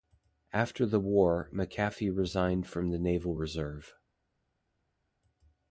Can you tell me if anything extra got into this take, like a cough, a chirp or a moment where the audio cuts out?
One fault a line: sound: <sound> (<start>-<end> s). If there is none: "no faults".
no faults